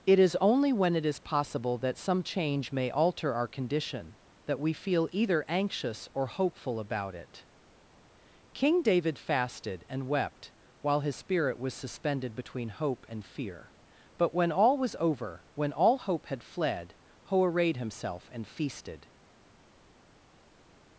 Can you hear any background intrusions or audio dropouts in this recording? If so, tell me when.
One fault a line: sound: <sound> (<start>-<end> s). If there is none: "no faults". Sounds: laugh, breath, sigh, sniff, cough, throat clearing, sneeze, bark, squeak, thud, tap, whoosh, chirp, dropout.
no faults